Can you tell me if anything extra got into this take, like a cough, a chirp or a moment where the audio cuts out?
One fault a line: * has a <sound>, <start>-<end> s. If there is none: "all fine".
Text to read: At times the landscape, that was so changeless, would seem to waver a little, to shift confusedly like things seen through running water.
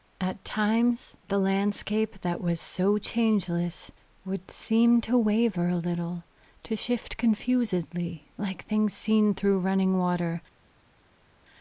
all fine